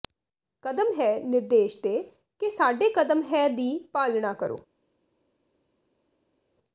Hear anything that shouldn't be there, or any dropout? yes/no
no